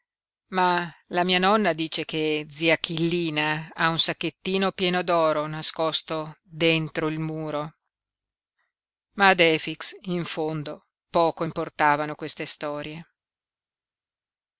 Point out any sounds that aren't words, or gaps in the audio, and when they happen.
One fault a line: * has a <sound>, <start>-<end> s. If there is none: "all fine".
all fine